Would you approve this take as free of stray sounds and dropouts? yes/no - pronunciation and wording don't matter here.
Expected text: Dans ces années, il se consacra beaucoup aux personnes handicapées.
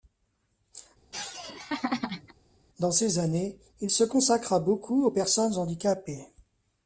no